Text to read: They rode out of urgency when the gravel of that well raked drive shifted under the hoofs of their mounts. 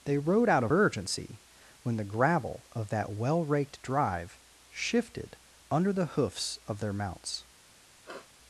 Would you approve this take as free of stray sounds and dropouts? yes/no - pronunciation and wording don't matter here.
no